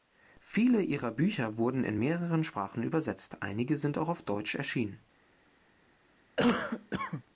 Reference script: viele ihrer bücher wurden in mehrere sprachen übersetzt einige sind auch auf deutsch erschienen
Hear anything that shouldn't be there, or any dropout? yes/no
yes